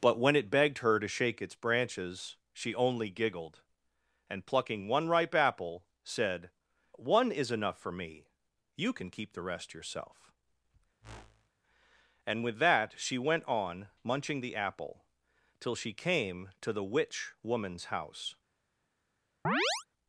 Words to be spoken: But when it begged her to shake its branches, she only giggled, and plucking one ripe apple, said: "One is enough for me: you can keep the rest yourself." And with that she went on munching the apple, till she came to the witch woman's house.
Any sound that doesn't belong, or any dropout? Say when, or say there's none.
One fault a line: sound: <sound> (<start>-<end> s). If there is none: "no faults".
sound: whoosh (11.0-11.5 s)
sound: chirp (19.4-19.9 s)